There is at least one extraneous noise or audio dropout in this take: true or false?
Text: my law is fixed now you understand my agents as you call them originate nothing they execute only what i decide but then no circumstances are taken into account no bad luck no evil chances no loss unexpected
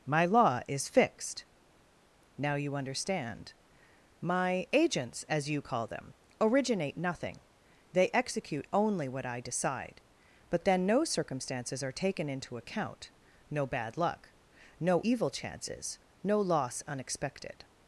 false